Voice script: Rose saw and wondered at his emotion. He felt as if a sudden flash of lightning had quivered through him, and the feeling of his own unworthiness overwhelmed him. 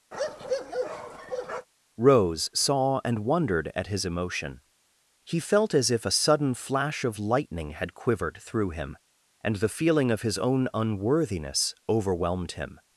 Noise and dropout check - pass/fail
fail